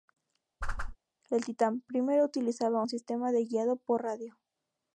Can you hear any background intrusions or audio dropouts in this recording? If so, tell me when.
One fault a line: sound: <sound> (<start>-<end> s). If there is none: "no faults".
sound: whoosh (0.6-1.0 s)